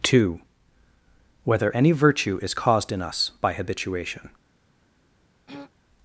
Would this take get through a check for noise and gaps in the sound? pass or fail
fail